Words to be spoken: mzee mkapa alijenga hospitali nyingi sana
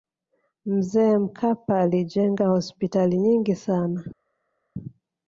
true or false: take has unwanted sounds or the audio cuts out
false